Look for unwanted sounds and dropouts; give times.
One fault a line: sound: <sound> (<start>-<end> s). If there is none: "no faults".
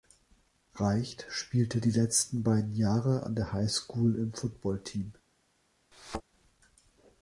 sound: thud (5.9-6.2 s)